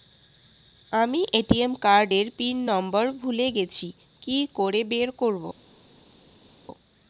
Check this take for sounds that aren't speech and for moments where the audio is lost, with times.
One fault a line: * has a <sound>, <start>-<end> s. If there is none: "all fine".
all fine